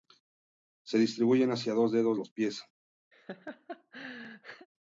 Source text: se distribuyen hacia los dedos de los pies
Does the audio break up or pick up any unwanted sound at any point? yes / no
yes